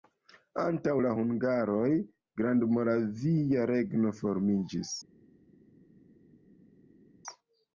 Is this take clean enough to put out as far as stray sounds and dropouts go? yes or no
yes